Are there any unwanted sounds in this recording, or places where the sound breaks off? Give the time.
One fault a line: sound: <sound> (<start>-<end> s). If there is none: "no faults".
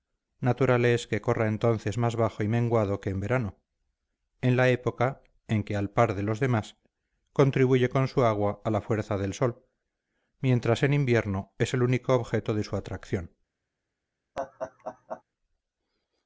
sound: laugh (14.3-15.2 s)